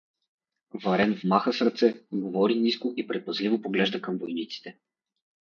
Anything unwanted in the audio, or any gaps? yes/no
no